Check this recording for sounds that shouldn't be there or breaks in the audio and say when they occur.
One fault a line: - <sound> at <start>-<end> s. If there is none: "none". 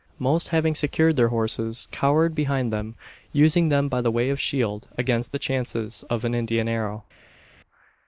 none